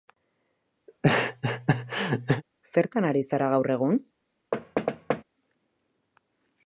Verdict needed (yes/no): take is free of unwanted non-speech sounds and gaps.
no